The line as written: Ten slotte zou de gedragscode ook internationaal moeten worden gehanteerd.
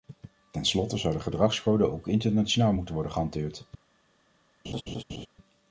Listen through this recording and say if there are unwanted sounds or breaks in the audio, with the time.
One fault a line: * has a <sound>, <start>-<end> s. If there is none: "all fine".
* has a laugh, 4.6-5.3 s